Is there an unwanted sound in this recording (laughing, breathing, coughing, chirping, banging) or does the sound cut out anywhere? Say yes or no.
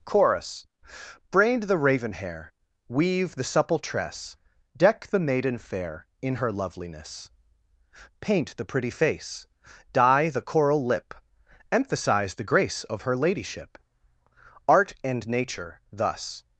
no